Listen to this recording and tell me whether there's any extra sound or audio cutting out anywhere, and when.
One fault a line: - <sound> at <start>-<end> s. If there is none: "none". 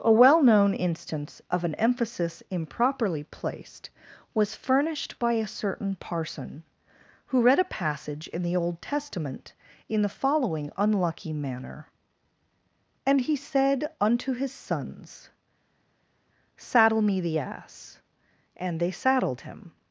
none